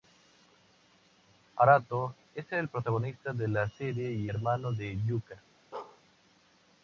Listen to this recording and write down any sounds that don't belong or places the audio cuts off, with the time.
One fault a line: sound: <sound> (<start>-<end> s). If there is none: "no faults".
sound: bark (5.7-6.0 s)